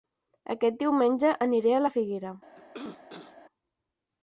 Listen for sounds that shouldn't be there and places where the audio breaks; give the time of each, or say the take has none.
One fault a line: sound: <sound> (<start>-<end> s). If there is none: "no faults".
sound: cough (2.5-3.4 s)